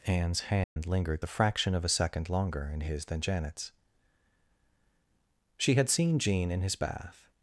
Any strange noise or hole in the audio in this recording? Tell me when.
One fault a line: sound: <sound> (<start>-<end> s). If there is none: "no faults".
sound: dropout (0.6-0.8 s)